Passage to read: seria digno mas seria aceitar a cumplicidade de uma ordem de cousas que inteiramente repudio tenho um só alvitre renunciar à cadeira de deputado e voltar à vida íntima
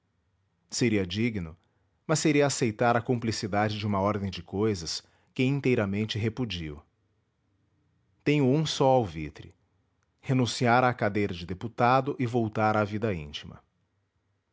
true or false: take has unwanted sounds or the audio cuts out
false